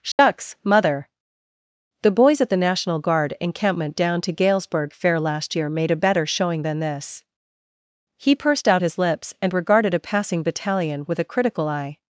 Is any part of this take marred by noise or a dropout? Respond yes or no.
yes